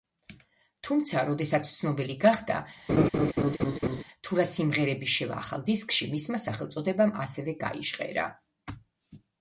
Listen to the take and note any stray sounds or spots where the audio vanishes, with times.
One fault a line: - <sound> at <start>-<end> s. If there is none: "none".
- laugh at 2.9-4.0 s